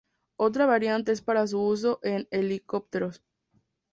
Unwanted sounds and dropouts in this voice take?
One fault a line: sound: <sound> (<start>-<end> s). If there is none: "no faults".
no faults